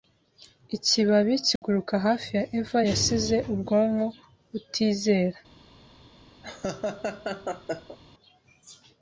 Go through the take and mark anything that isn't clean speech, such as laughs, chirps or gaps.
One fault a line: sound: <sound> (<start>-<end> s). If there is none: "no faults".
sound: dropout (1.6-1.6 s)
sound: laugh (6.4-8.0 s)